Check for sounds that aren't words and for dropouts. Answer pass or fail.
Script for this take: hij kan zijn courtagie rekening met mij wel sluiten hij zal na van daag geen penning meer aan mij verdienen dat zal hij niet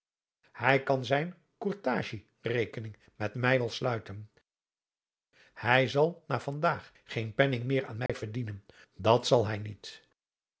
fail